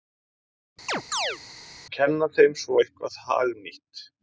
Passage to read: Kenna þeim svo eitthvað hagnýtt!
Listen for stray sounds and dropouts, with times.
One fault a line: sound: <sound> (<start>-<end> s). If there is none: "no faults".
sound: chirp (0.9-1.4 s)